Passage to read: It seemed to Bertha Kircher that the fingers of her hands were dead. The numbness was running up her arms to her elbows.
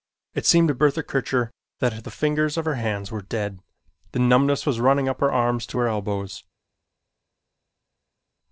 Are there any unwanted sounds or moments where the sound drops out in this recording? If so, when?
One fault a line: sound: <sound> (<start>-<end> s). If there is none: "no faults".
no faults